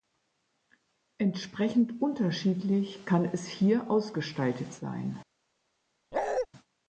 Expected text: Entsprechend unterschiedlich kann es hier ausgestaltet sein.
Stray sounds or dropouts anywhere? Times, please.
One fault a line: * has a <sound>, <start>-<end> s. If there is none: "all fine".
* has a bark, 6.1-6.5 s